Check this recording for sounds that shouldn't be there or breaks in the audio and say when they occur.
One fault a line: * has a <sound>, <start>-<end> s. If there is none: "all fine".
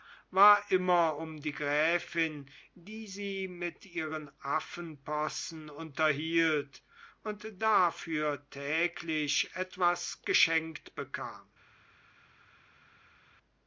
all fine